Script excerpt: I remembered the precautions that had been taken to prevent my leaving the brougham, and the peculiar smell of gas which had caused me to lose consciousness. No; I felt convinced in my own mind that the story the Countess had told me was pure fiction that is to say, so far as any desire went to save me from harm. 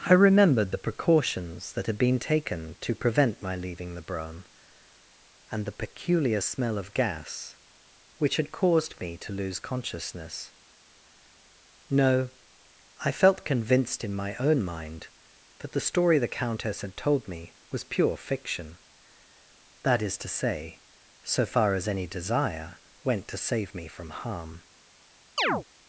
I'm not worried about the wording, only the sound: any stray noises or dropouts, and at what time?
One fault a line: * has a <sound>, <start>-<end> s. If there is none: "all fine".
* has a chirp, 25.4-25.6 s